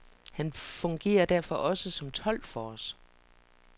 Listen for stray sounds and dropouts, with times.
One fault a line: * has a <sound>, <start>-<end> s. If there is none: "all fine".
all fine